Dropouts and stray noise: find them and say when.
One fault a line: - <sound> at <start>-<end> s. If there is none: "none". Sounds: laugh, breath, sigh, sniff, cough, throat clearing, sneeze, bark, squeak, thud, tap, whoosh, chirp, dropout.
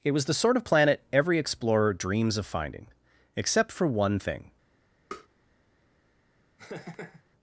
- tap at 5.1-5.3 s
- laugh at 6.6-7.2 s